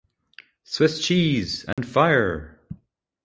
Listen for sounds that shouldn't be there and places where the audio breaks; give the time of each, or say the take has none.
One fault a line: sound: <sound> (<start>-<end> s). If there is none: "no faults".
sound: dropout (1.7-1.8 s)